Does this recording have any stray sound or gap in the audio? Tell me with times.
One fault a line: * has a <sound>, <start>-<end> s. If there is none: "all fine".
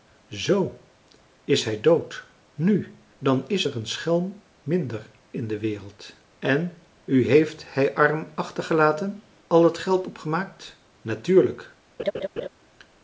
* has a laugh, 12.0-12.5 s